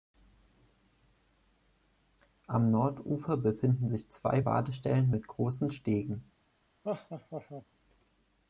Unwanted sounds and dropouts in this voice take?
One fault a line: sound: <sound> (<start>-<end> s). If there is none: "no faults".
sound: laugh (6.8-7.6 s)